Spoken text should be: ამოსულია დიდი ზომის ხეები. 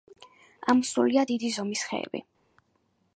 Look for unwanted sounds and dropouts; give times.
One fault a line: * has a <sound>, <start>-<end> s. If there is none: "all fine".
all fine